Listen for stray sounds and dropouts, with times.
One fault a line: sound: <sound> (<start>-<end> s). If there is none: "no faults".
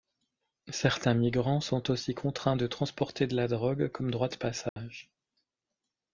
sound: dropout (4.7-4.8 s)